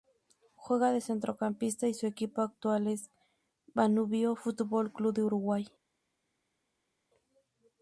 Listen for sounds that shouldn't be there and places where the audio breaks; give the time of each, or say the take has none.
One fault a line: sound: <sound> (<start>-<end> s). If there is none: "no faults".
no faults